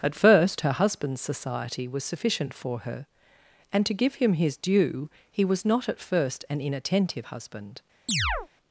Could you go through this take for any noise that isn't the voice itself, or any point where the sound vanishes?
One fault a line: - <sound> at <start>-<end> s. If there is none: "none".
- chirp at 8.1-8.5 s